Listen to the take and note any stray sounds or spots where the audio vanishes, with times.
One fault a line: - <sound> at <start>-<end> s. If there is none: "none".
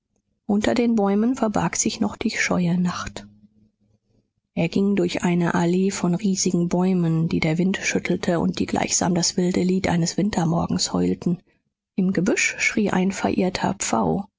none